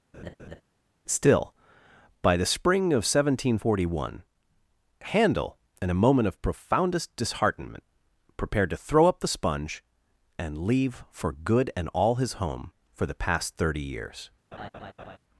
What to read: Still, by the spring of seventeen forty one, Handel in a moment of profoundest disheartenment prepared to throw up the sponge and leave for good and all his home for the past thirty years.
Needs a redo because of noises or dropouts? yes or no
yes